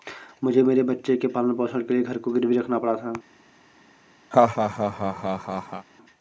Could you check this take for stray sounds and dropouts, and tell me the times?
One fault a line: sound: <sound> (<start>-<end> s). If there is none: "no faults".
sound: laugh (4.3-5.9 s)